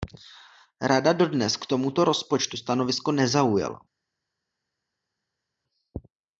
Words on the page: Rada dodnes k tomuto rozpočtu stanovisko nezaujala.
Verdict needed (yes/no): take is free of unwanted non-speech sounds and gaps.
yes